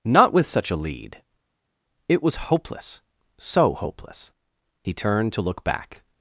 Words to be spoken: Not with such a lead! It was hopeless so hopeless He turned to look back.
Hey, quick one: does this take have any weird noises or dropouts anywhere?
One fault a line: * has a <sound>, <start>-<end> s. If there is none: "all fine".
all fine